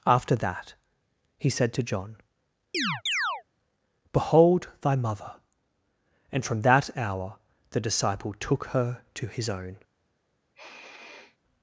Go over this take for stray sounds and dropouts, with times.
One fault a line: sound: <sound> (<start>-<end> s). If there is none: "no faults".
sound: chirp (2.7-3.4 s)
sound: sniff (10.5-11.4 s)